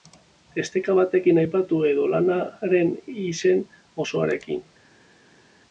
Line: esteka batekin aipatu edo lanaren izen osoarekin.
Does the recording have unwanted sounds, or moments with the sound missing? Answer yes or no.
no